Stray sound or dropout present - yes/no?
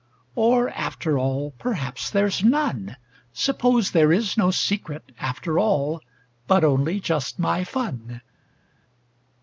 no